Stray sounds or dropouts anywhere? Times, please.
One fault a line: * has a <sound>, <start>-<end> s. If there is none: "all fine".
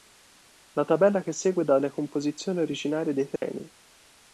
* has a dropout, 3.4-3.4 s